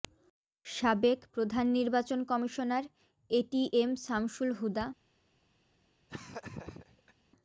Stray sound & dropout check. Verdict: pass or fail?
fail